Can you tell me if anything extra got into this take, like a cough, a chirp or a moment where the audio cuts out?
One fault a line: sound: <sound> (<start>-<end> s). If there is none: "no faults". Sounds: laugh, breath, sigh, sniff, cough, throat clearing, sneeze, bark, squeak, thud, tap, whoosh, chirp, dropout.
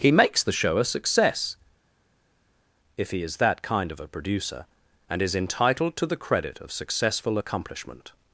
no faults